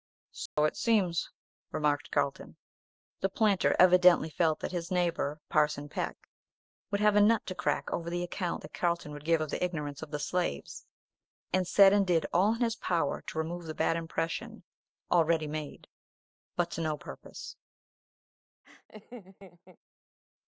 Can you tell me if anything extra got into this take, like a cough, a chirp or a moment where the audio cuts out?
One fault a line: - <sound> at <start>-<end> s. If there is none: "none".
- dropout at 0.5-0.6 s
- laugh at 18.6-19.8 s